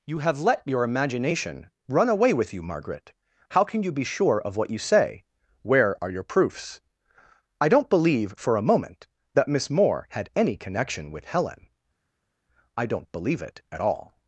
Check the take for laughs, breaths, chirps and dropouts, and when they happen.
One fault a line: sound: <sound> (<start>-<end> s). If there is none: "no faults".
no faults